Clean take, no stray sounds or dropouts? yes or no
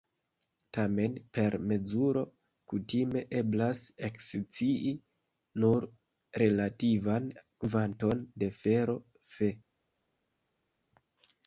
yes